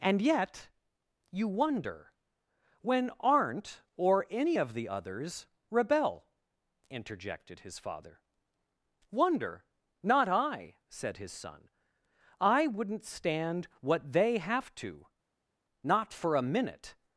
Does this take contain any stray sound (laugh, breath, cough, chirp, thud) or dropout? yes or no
no